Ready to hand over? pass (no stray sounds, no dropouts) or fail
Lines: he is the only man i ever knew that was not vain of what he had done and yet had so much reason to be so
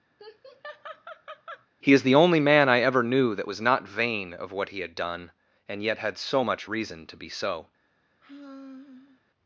fail